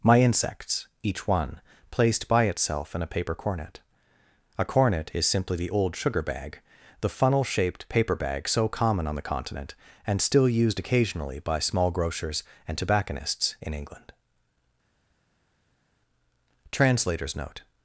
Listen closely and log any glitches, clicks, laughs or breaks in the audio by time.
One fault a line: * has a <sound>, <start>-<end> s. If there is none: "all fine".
all fine